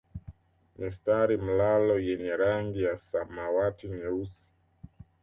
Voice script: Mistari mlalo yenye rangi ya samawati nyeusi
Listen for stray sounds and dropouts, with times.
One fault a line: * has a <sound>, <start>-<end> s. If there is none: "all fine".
all fine